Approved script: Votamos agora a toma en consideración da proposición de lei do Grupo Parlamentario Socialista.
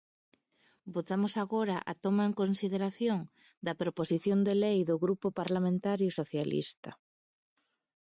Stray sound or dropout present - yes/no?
no